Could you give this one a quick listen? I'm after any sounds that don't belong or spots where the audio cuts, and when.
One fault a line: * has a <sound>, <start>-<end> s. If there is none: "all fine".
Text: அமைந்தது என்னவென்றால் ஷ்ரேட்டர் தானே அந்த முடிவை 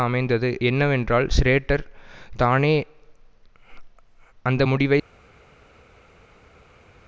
all fine